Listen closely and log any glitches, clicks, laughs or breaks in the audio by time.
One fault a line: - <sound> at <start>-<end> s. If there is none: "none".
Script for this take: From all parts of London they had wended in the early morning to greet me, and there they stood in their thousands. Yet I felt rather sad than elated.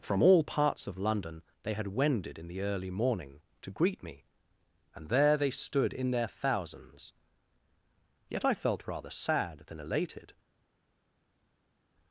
none